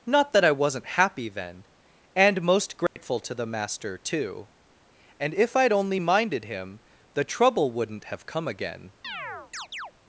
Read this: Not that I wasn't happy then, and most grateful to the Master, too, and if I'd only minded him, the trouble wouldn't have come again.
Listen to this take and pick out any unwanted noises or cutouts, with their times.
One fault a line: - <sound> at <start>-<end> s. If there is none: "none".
- dropout at 2.9-3.0 s
- chirp at 9.0-9.9 s